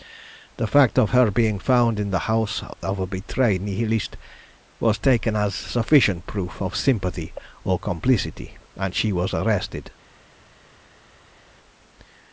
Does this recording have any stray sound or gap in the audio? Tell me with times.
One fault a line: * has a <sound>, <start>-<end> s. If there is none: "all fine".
all fine